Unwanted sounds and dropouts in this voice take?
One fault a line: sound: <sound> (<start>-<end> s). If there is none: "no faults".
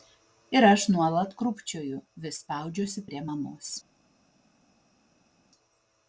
no faults